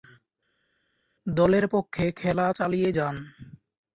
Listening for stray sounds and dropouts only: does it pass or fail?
pass